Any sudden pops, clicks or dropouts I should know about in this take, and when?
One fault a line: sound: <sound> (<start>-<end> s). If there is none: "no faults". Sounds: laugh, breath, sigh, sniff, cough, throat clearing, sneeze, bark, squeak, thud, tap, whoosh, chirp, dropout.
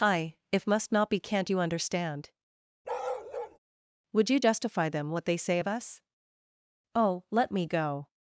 sound: bark (2.8-3.6 s)